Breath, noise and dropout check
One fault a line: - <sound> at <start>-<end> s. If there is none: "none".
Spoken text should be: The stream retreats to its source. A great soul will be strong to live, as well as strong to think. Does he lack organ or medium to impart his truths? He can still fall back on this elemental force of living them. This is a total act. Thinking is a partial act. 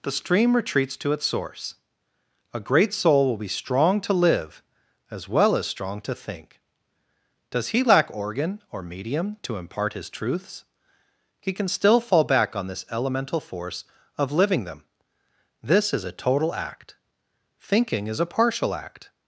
none